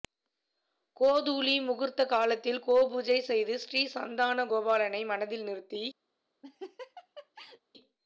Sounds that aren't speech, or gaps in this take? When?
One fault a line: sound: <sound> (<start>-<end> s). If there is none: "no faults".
sound: laugh (6.4-7.6 s)